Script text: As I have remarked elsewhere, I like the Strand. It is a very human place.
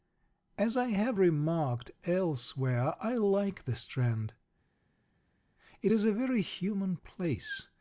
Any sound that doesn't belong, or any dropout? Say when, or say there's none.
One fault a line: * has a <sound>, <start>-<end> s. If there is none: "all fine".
all fine